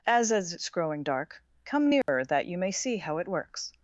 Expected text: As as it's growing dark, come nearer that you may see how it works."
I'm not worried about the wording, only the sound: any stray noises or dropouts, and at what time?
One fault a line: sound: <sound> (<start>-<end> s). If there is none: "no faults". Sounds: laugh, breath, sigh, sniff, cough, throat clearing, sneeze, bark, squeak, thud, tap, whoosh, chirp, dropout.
sound: dropout (2.0-2.1 s)